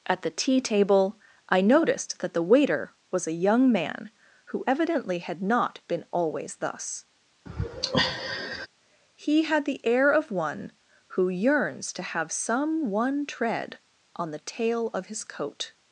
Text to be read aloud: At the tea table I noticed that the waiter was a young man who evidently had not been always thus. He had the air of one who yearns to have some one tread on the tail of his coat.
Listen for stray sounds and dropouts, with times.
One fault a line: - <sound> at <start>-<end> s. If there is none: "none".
- sigh at 7.5-8.7 s